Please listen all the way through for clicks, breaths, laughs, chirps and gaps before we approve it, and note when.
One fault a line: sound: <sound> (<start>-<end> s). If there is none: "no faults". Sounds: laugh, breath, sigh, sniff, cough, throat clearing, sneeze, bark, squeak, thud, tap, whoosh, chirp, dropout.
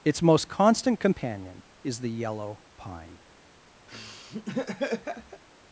sound: laugh (3.9-5.4 s)